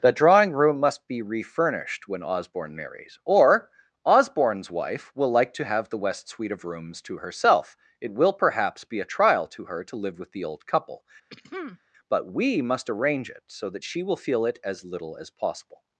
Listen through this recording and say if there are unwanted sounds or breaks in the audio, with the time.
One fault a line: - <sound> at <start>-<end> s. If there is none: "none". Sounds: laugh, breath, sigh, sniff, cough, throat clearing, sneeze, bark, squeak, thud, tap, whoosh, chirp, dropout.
- throat clearing at 11.3-11.8 s